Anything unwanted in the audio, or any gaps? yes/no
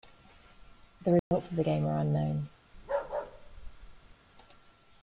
yes